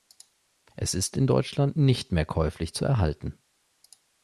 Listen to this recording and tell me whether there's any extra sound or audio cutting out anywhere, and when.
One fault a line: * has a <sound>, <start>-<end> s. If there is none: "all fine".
all fine